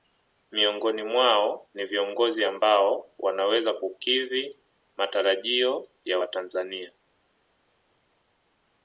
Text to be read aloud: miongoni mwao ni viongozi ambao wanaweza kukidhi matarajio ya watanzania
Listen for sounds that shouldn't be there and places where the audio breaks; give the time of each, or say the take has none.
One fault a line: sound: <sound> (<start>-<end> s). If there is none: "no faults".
no faults